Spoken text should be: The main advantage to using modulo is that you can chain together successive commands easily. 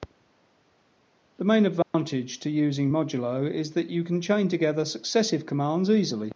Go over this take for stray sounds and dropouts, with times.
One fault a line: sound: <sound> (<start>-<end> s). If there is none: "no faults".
sound: dropout (1.8-1.9 s)